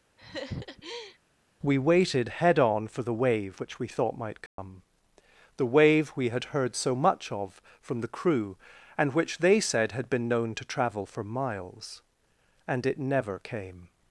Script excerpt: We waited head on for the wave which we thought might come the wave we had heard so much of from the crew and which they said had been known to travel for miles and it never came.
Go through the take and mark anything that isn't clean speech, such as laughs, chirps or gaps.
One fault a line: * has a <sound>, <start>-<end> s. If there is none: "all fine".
* has a laugh, 0.2-1.2 s
* has a dropout, 4.5-4.6 s